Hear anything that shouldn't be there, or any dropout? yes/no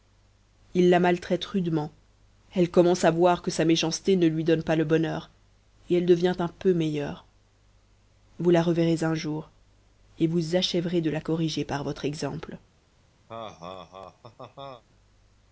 yes